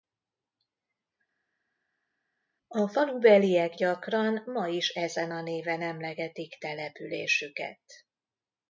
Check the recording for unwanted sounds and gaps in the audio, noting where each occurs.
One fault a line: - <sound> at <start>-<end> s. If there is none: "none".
none